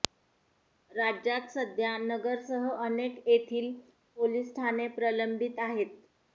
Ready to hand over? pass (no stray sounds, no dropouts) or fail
pass